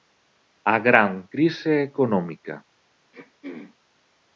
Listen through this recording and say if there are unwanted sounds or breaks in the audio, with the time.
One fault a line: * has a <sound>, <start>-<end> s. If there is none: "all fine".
* has a throat clearing, 3.1-3.8 s